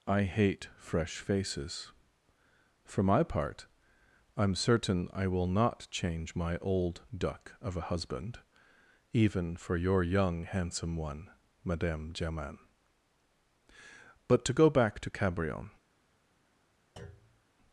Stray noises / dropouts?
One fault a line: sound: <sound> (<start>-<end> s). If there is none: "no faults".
sound: thud (17.0-17.4 s)